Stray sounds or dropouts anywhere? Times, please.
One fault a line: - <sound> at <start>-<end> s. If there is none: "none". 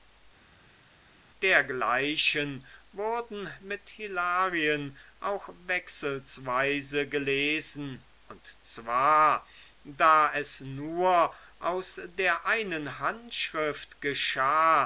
none